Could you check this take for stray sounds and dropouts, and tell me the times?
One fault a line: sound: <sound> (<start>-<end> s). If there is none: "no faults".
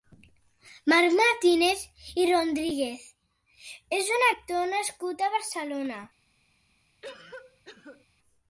sound: cough (7.0-8.1 s)